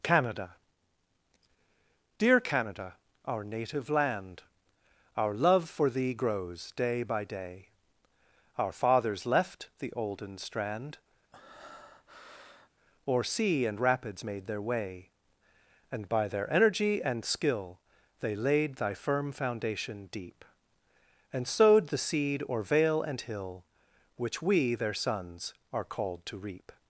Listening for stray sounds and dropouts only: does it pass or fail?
fail